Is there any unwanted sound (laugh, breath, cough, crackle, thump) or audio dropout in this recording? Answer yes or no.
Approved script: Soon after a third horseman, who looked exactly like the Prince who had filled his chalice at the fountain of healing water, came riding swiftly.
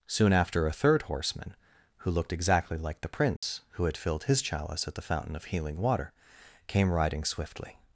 yes